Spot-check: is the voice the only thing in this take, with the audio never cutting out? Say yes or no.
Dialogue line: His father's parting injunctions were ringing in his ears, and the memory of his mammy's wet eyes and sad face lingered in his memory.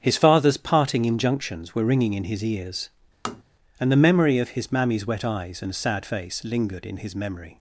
no